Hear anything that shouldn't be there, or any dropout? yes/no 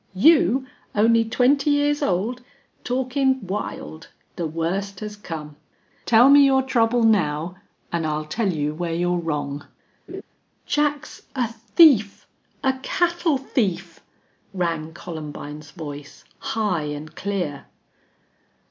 yes